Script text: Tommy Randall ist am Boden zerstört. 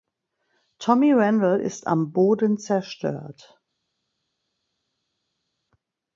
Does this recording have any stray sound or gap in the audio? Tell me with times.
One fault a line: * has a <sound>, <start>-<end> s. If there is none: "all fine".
all fine